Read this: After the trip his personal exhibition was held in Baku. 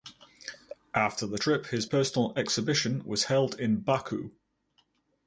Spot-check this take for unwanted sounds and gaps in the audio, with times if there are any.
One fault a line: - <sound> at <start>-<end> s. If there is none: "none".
none